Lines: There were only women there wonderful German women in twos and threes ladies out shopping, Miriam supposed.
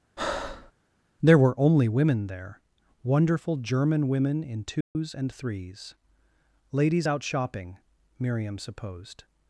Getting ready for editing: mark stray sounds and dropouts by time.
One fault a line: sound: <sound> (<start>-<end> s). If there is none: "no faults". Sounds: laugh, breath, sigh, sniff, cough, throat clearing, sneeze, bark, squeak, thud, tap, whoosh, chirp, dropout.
sound: breath (0.2-0.7 s)
sound: dropout (4.8-5.0 s)